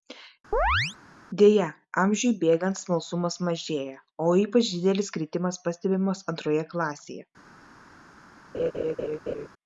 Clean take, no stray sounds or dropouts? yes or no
no